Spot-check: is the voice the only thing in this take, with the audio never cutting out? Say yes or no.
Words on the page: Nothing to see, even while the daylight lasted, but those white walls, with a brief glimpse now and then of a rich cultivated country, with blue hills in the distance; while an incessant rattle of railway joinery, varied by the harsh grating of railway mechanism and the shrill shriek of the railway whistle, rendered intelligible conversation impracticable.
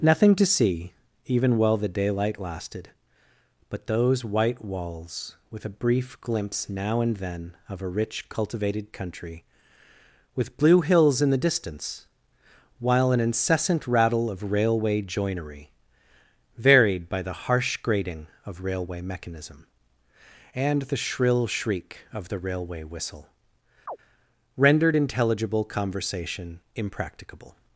no